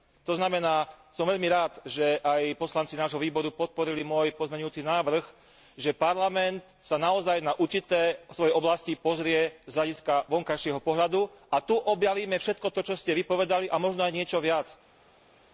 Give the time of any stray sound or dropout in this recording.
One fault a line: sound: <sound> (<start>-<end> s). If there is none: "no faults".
no faults